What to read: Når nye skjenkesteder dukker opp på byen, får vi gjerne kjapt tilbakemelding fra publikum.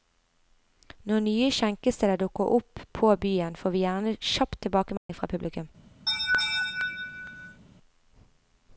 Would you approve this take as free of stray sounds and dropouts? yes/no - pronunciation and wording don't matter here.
no